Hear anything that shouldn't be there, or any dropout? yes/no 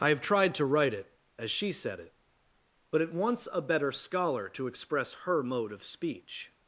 no